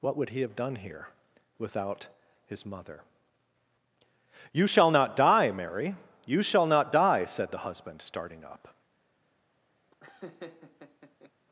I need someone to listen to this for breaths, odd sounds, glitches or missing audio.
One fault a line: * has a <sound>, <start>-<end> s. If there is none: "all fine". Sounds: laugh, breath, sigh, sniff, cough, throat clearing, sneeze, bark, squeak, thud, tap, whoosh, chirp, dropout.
* has a laugh, 9.9-11.3 s